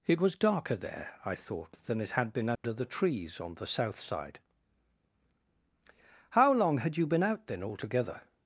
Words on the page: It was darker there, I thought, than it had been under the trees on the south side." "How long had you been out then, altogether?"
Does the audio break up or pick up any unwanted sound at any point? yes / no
yes